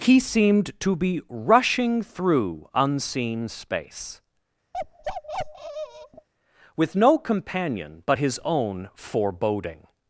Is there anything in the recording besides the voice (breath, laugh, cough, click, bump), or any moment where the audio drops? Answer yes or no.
yes